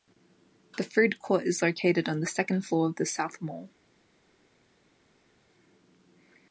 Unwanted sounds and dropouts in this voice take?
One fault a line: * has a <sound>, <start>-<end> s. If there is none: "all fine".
all fine